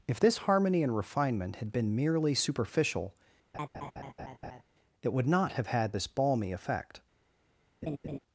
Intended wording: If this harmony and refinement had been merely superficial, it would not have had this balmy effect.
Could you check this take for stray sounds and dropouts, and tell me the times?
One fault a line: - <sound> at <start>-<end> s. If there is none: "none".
- laugh at 3.5-4.6 s
- laugh at 7.8-8.2 s